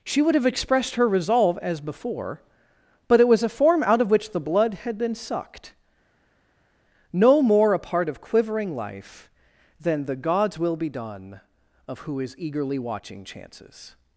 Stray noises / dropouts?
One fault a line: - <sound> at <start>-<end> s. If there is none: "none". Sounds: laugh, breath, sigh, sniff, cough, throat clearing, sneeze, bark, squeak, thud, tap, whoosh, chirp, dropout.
none